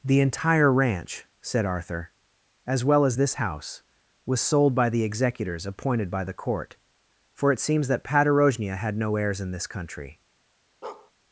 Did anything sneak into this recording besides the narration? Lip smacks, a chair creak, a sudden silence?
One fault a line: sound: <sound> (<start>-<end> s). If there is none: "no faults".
sound: bark (10.8-11.1 s)